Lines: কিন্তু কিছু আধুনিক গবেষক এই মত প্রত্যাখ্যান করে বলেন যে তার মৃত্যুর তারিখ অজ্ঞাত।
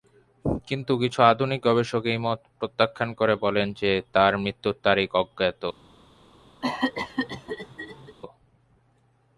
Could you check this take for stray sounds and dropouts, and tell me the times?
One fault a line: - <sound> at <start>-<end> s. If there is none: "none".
- cough at 6.6-8.2 s